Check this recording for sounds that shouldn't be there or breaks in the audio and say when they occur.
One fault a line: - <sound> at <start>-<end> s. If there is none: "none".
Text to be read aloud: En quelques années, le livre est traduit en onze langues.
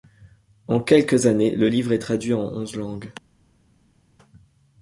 none